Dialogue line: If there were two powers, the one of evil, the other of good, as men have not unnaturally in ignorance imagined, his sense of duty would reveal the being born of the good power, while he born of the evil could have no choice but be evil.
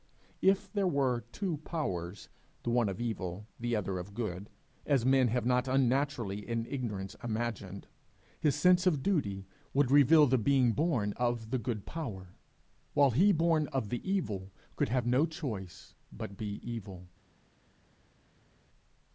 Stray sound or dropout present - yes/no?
no